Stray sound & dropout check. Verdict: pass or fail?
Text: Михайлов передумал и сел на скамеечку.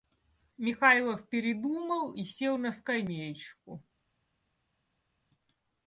pass